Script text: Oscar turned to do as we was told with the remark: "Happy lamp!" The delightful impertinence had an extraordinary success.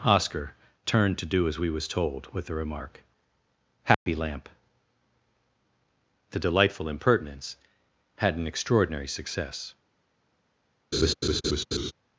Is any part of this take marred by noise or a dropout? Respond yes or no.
yes